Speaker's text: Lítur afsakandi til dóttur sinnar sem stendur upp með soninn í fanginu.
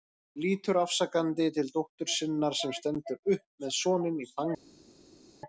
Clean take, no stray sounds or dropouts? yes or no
yes